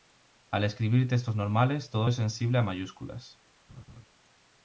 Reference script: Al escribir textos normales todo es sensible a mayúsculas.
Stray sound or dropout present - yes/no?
yes